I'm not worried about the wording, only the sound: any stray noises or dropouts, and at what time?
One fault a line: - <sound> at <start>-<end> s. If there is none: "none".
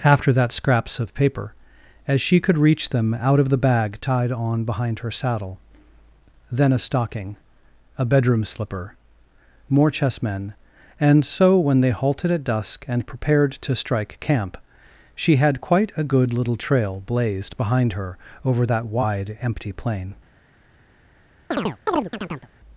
- chirp at 21.5-22.5 s